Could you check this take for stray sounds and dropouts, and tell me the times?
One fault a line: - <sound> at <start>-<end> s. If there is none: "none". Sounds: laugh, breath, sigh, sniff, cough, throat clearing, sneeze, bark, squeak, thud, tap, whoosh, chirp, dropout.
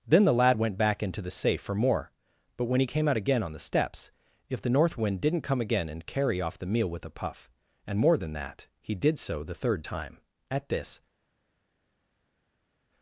none